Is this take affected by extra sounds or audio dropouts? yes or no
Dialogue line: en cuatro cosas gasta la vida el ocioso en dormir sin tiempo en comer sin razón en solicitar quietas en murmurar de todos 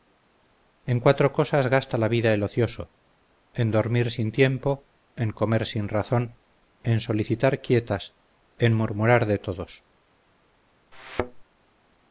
yes